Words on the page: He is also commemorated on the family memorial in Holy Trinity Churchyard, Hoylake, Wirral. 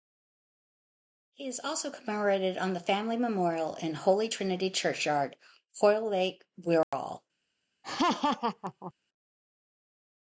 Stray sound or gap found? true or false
true